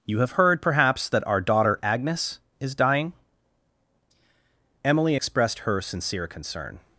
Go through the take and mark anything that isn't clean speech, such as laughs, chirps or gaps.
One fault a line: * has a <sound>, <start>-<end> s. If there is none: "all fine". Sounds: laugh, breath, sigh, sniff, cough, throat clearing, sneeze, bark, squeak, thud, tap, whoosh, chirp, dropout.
all fine